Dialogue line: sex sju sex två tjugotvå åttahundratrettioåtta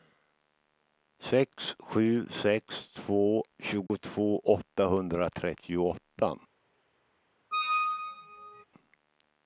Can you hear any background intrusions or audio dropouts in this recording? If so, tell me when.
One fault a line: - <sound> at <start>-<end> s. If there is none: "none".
- dropout at 3.9-3.9 s
- squeak at 7.5-8.6 s